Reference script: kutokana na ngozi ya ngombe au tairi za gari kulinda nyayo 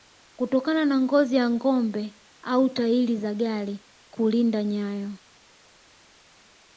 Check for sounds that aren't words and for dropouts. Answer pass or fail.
pass